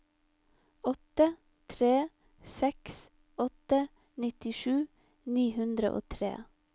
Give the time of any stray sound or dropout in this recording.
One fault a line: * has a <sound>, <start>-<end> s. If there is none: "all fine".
all fine